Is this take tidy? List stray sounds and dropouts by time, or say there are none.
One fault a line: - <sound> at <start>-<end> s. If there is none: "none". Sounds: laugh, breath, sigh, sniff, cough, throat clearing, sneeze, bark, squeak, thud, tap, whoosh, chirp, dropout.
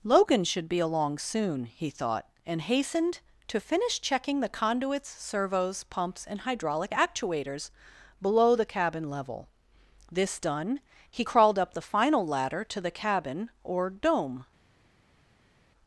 none